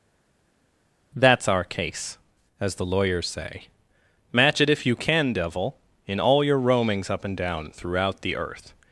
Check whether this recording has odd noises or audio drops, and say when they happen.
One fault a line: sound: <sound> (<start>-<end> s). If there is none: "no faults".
no faults